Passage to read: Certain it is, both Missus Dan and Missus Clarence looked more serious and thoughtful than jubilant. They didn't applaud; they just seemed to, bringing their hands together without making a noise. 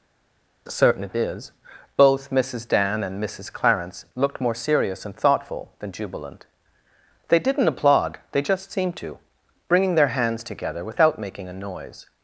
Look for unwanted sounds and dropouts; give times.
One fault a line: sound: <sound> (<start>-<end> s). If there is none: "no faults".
no faults